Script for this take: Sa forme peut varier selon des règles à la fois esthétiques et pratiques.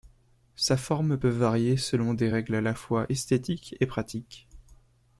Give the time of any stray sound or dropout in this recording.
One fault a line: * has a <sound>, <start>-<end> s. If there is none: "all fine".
all fine